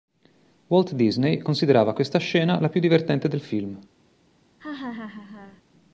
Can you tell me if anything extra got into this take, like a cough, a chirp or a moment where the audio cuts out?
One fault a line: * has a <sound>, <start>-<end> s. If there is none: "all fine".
* has a laugh, 4.6-5.6 s